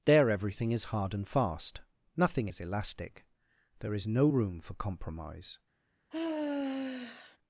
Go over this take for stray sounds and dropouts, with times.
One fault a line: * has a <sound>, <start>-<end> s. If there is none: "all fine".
* has a sigh, 6.1-7.4 s